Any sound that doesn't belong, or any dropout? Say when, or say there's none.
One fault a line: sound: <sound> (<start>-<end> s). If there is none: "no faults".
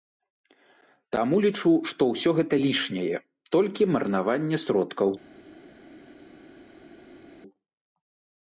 no faults